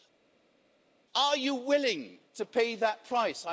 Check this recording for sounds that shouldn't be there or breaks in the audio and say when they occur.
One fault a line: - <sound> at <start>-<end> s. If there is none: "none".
none